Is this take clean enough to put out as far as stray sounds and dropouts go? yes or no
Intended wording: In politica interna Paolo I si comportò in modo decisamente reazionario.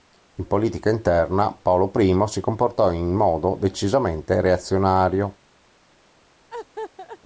no